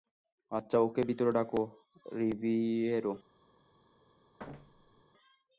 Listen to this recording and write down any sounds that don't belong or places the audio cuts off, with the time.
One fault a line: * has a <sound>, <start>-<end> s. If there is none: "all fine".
* has a thud, 4.4-5.0 s